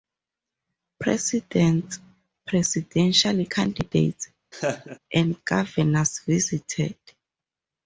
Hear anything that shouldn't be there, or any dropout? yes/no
yes